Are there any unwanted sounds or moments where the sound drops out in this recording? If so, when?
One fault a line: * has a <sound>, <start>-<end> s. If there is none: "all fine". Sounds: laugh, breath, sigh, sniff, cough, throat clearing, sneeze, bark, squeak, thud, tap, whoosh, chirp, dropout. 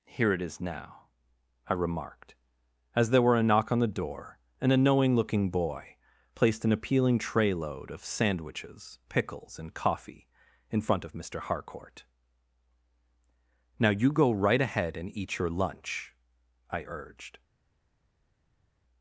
all fine